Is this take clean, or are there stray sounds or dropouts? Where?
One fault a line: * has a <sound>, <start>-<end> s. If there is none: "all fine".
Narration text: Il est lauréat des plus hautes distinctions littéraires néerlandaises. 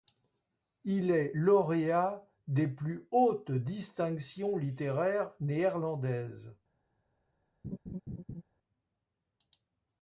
* has a laugh, 7.6-8.4 s